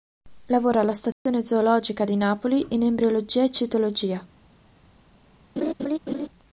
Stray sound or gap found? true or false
true